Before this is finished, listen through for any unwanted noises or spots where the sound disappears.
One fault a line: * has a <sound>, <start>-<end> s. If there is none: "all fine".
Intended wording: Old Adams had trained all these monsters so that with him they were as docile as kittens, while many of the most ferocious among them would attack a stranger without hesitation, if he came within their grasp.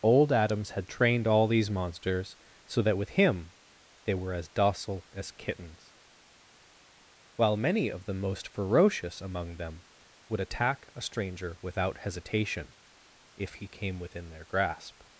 all fine